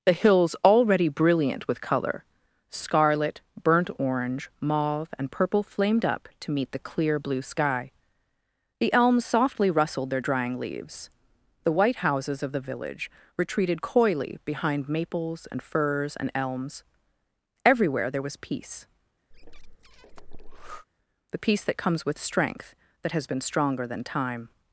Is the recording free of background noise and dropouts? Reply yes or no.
no